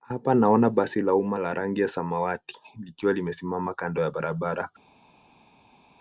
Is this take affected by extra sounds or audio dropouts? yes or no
no